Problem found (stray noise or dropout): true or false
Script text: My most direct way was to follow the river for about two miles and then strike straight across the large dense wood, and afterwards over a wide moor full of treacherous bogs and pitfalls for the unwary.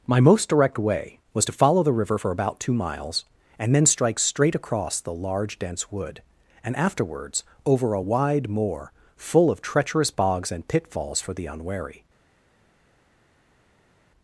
false